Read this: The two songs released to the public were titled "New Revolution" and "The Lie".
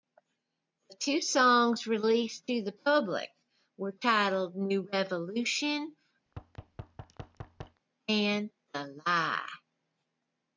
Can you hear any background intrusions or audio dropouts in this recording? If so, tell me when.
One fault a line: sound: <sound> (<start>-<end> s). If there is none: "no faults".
sound: thud (6.3-7.8 s)